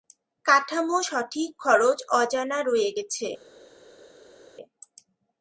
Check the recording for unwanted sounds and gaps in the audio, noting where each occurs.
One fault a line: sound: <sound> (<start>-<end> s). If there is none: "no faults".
no faults